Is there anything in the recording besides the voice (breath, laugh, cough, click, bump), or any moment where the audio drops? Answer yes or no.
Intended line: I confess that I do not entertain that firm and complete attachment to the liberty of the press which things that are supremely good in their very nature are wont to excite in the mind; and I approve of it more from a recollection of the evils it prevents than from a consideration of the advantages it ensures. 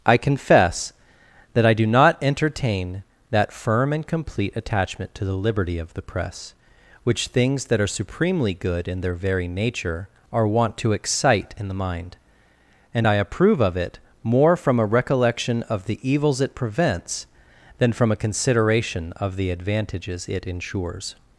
no